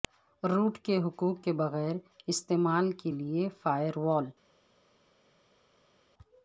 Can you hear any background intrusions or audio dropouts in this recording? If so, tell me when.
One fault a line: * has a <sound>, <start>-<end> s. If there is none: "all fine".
all fine